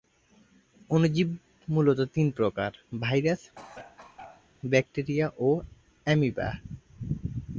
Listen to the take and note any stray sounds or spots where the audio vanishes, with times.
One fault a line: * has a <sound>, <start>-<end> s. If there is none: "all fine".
* has a cough, 3.6-4.5 s